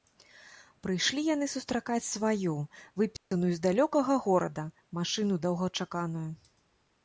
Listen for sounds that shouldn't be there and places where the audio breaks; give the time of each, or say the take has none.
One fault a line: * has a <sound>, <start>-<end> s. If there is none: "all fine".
* has a dropout, 3.2-3.3 s